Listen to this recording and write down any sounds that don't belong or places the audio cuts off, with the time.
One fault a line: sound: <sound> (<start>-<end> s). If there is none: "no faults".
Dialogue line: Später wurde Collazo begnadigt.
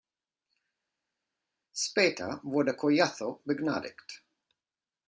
no faults